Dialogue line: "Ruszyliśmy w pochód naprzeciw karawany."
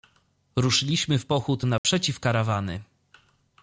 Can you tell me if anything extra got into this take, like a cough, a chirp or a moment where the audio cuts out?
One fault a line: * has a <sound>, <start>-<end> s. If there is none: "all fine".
* has a dropout, 1.8-1.8 s